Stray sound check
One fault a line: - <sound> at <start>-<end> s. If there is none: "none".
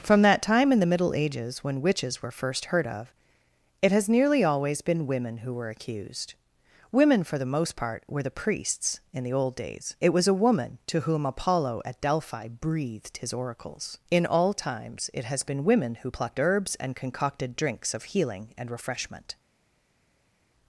none